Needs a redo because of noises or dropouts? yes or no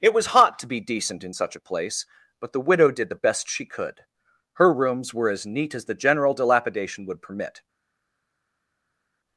no